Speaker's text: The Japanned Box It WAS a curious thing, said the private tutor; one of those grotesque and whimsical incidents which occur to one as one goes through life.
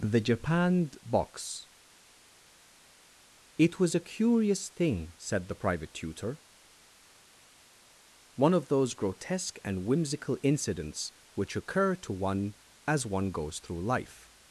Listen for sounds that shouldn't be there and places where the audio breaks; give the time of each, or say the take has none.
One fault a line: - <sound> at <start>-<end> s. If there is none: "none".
none